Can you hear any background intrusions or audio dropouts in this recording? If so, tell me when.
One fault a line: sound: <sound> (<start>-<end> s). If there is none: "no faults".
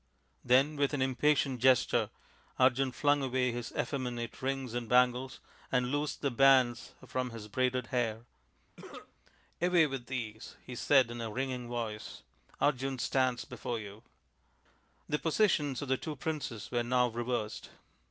sound: cough (8.8-9.1 s)